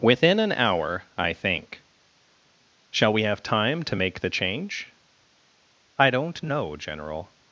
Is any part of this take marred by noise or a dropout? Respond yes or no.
no